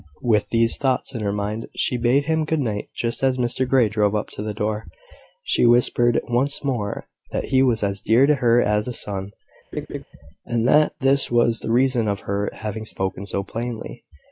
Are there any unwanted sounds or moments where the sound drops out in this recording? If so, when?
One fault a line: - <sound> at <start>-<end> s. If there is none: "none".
- laugh at 9.7-10.0 s